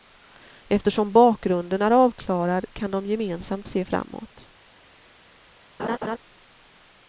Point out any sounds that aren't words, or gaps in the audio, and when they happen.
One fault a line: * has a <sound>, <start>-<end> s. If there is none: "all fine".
* has a laugh, 5.8-6.2 s